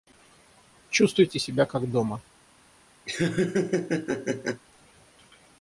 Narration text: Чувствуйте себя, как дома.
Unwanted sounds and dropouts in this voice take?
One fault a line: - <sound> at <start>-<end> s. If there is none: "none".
- laugh at 3.1-4.6 s